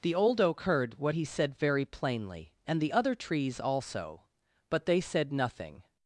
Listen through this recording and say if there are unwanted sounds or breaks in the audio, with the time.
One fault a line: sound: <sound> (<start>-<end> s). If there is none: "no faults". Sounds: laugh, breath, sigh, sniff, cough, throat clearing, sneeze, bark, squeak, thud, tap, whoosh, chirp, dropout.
no faults